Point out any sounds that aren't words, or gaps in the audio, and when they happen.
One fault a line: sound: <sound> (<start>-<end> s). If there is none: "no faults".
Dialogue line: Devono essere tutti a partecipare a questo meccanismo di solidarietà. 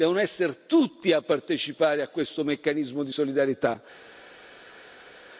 no faults